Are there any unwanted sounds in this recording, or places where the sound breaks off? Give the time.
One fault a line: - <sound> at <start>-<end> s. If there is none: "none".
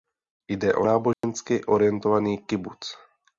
- dropout at 1.1-1.2 s